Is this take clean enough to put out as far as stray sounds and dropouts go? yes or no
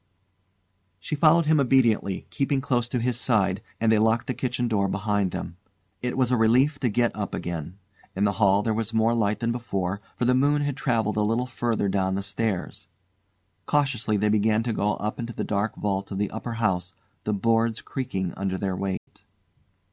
no